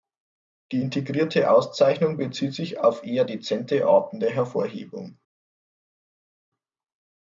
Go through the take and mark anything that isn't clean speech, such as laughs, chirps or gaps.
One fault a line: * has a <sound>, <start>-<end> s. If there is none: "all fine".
all fine